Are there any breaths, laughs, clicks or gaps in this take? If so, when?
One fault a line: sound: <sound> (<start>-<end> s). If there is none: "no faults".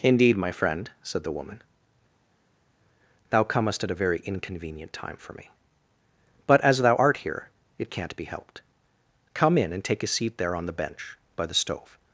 no faults